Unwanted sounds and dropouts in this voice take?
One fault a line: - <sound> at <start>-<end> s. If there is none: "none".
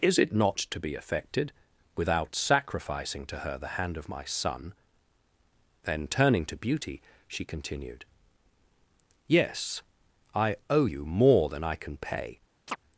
- chirp at 12.7-12.8 s